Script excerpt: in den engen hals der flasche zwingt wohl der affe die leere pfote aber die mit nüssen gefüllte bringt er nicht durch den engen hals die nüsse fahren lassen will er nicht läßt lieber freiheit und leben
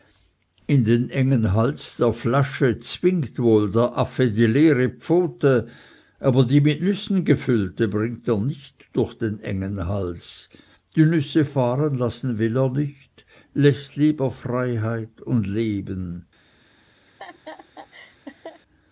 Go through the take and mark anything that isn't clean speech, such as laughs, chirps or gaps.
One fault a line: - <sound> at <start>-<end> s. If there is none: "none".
- laugh at 17.1-18.6 s